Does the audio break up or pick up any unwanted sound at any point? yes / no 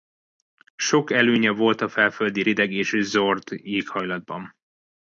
no